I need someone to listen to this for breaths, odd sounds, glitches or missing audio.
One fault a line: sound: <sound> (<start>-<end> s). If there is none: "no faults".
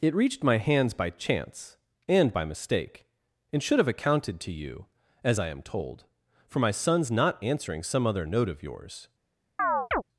sound: chirp (9.6-10.0 s)